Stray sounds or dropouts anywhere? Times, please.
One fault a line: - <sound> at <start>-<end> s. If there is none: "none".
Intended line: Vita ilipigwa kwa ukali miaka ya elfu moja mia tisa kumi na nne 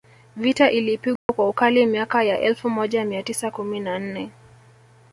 - dropout at 1.2-1.3 s